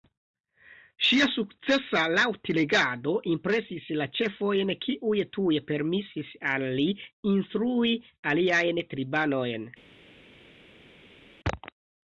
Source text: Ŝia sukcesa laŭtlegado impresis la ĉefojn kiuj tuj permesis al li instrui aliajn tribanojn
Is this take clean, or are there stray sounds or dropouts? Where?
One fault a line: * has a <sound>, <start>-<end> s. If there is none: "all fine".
all fine